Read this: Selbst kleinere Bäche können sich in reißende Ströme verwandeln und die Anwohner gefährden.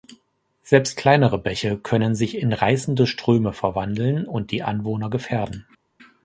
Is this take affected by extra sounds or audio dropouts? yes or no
no